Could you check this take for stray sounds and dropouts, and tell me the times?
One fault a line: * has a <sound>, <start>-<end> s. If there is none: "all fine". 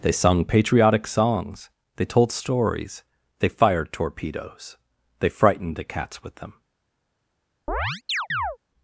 * has a chirp, 7.7-8.6 s